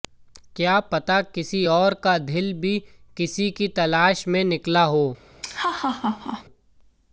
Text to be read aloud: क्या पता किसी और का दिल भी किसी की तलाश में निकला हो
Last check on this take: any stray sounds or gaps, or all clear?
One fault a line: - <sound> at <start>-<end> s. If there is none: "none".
- laugh at 5.4-6.4 s